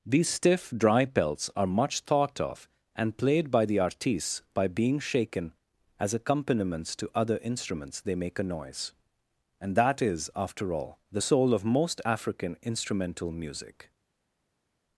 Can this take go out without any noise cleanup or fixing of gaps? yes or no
yes